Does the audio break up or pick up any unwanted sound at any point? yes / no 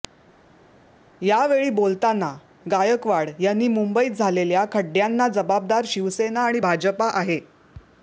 no